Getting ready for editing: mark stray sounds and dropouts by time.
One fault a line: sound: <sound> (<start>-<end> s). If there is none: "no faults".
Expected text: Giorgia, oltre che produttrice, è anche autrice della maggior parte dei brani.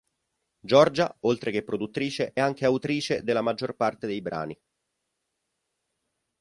no faults